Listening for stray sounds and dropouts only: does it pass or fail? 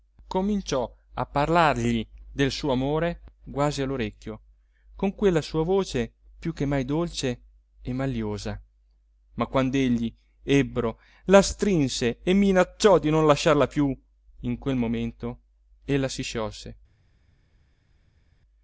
pass